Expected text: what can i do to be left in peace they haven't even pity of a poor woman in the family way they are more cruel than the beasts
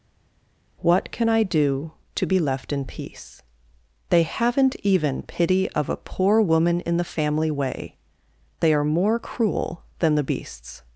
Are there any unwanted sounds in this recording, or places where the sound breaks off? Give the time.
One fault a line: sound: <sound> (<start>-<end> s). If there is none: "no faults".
no faults